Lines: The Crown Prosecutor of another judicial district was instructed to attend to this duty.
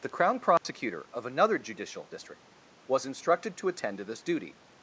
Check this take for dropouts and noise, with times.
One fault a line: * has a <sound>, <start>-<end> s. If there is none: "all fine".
* has a dropout, 0.6-0.6 s